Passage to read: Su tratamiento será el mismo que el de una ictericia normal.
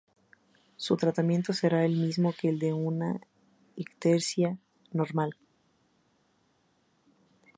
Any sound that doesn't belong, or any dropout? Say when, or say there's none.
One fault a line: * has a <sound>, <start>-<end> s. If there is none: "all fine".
all fine